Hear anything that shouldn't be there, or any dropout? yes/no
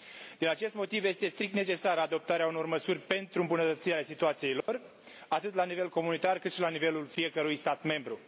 yes